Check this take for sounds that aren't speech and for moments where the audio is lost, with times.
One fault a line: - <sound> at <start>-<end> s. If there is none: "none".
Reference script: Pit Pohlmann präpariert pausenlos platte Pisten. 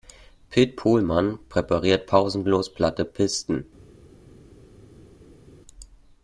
none